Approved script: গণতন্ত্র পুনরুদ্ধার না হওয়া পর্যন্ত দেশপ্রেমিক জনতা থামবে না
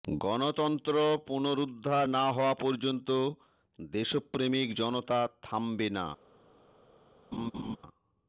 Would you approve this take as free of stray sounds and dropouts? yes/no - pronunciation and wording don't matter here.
no